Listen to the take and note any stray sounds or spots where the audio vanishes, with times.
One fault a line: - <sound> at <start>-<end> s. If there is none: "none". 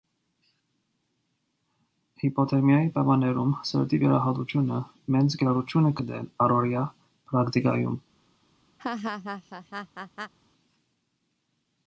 - laugh at 8.8-10.3 s